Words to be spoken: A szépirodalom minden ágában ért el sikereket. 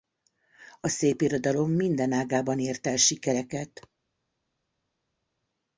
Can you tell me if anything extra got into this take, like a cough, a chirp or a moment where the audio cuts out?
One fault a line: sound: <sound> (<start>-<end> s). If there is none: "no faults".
no faults